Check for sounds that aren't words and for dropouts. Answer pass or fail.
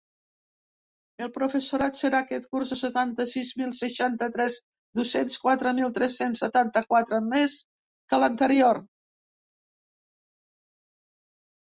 pass